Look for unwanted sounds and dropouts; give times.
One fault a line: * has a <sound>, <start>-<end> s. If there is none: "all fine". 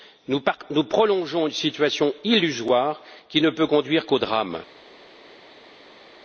all fine